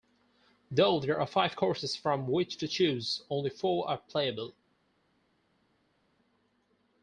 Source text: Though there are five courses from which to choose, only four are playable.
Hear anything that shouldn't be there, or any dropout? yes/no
no